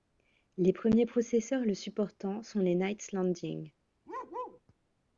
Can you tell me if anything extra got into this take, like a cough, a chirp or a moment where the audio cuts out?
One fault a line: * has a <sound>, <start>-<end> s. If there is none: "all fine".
* has a bark, 4.1-4.6 s